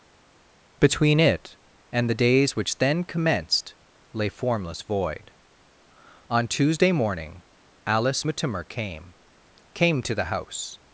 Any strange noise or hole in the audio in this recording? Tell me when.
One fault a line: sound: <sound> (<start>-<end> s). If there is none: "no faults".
no faults